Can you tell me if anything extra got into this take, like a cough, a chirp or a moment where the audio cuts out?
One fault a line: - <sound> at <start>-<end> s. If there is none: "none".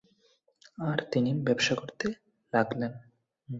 none